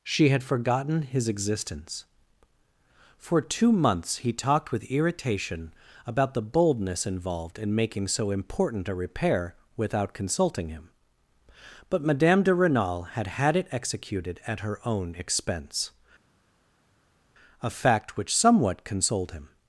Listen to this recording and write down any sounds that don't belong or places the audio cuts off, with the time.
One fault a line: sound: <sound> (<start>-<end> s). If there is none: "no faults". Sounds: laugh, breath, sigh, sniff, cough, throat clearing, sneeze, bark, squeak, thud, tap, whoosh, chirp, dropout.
no faults